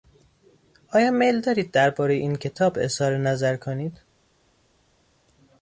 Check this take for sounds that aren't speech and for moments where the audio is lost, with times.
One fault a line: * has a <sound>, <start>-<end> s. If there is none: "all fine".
all fine